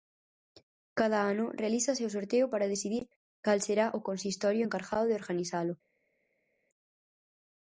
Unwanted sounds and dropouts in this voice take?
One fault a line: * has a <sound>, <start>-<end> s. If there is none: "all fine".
all fine